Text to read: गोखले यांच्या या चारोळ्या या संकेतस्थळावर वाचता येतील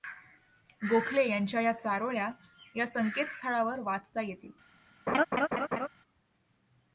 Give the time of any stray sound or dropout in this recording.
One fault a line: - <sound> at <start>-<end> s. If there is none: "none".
- laugh at 5.1-5.9 s